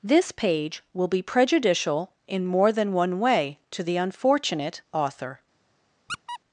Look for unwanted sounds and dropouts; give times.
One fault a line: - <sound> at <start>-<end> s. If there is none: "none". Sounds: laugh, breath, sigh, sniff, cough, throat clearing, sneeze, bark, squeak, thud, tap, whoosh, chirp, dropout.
- squeak at 6.1-6.4 s